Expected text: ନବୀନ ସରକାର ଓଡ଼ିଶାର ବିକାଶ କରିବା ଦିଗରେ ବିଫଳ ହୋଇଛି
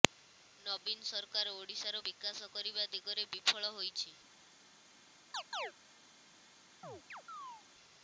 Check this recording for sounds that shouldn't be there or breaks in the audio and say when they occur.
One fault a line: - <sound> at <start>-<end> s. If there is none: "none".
- chirp at 5.3-5.7 s
- chirp at 6.8-7.6 s